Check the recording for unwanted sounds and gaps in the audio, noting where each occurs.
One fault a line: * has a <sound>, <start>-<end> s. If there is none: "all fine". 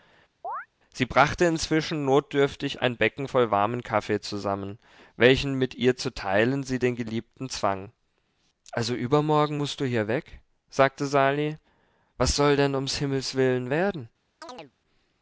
* has a chirp, 0.4-0.7 s
* has a chirp, 14.4-14.7 s